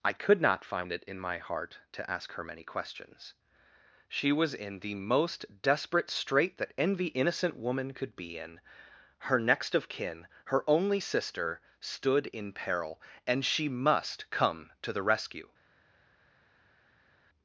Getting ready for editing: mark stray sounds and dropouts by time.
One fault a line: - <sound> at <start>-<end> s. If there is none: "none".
none